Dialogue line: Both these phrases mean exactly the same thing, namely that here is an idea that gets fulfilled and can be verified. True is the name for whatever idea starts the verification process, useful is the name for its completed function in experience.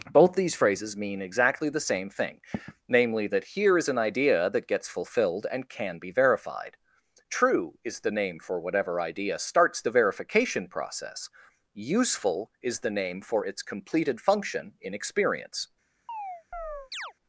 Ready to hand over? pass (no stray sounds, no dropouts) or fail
fail